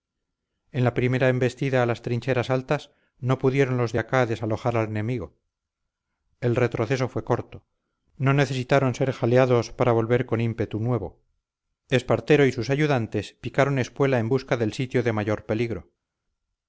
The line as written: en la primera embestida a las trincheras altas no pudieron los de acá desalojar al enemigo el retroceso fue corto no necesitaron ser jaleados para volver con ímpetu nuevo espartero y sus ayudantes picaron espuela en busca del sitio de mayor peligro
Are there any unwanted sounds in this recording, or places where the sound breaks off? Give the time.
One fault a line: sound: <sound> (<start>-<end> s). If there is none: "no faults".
no faults